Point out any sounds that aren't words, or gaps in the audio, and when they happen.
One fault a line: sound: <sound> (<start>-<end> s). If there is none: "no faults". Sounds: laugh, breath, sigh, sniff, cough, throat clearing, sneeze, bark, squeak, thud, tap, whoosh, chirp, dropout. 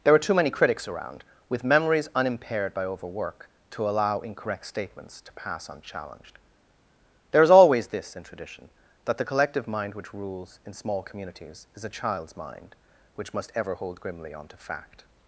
no faults